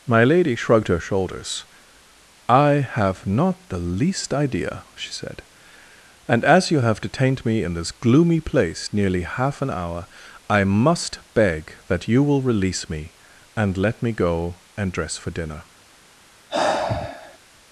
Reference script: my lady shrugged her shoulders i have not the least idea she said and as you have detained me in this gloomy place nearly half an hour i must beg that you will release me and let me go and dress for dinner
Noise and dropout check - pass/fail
fail